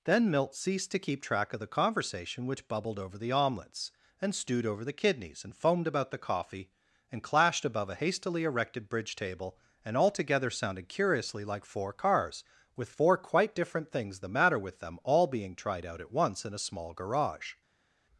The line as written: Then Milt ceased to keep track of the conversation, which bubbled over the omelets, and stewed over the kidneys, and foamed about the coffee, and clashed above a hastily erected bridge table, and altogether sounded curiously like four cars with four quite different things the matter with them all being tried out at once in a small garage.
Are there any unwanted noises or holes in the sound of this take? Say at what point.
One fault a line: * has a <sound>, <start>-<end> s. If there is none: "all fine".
all fine